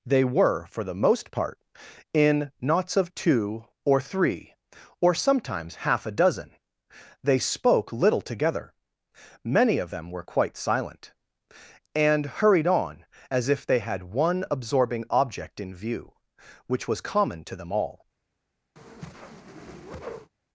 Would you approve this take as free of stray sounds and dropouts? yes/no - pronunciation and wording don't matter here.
no